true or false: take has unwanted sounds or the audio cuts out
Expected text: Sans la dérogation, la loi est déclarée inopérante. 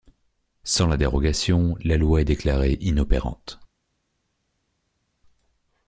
false